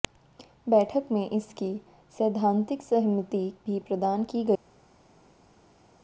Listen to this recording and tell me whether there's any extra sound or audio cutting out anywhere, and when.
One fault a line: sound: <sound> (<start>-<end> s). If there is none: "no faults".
no faults